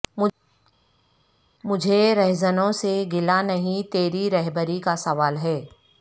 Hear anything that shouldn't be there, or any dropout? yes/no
no